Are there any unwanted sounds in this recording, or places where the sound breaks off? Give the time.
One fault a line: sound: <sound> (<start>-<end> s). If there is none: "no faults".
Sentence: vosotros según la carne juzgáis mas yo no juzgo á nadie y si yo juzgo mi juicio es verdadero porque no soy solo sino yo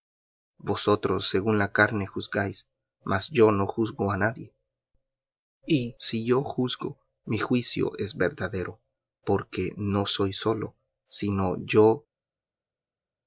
no faults